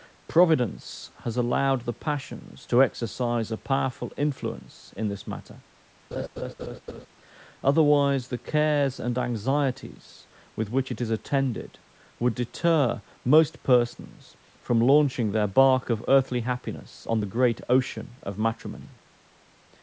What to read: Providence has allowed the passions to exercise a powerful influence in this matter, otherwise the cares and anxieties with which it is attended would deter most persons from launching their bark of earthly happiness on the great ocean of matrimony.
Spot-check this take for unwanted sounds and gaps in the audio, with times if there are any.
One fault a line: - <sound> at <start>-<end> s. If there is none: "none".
- laugh at 6.1-7.1 s